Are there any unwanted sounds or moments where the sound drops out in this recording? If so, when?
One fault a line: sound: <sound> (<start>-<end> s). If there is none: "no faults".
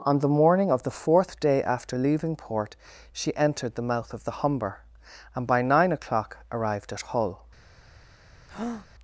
sound: breath (8.5-8.9 s)